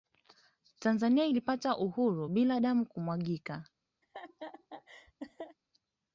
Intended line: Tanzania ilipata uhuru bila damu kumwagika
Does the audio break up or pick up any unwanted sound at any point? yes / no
yes